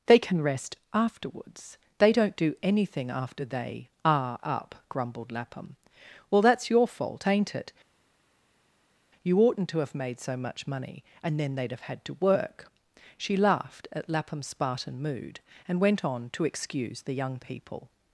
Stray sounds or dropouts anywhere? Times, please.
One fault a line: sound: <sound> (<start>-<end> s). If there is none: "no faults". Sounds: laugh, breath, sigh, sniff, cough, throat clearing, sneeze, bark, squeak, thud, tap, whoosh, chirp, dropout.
no faults